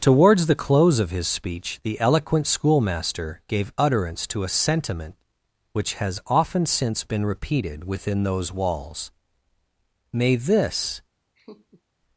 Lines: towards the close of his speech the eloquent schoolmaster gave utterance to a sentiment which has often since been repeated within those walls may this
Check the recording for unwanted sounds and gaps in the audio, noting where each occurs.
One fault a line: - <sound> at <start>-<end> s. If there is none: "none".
- laugh at 11.3-11.8 s